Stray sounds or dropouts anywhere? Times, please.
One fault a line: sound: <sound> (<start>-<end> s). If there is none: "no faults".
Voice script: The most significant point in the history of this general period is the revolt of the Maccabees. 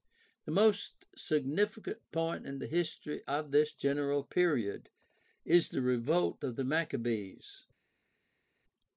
no faults